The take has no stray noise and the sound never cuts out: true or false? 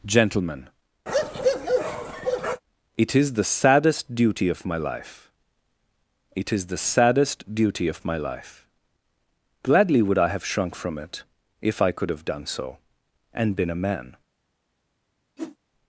false